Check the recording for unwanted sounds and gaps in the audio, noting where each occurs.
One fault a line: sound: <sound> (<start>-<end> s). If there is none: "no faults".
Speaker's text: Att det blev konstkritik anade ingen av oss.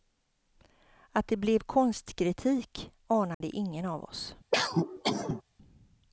sound: dropout (3.3-3.4 s)
sound: cough (4.5-5.4 s)